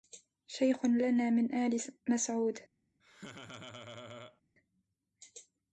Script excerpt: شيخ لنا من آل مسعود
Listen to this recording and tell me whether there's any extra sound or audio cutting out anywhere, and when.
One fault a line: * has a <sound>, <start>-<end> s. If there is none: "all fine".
* has a laugh, 3.0-4.4 s